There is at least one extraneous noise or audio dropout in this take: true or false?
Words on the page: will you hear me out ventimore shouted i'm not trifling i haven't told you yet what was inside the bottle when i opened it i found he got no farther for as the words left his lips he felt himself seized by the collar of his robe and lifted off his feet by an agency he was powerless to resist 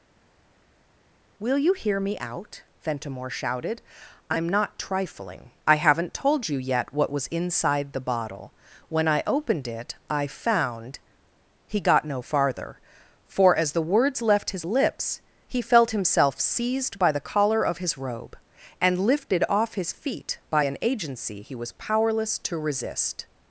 false